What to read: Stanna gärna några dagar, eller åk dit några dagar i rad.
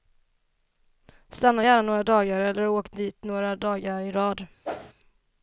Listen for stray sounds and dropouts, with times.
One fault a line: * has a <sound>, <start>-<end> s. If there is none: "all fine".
* has a whoosh, 4.6-4.9 s